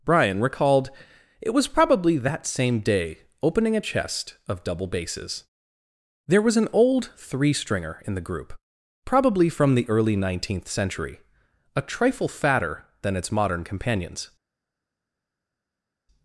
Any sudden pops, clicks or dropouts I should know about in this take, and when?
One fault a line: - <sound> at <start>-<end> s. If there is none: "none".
none